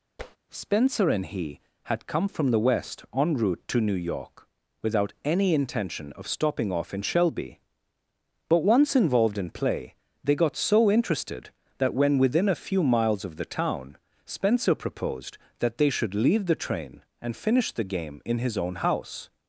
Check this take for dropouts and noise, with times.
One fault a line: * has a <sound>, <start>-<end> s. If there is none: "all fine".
* has a tap, 0.2-0.4 s